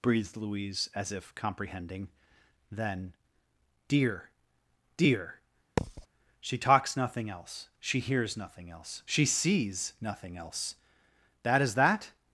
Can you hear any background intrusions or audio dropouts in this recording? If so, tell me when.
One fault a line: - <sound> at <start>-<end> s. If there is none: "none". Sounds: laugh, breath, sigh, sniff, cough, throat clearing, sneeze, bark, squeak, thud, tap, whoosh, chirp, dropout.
- thud at 5.8-6.1 s